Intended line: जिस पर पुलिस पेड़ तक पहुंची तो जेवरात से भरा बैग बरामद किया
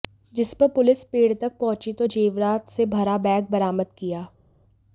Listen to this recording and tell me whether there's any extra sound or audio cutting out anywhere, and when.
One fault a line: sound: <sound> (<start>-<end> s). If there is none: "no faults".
no faults